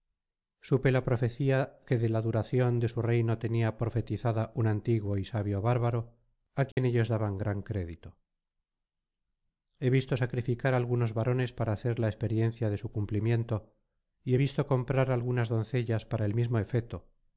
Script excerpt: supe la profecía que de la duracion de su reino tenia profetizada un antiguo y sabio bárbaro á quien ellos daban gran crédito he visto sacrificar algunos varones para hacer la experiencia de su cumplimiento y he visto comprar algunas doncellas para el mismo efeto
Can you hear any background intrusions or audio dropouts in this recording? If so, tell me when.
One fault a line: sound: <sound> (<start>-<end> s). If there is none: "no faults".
sound: dropout (6.7-6.8 s)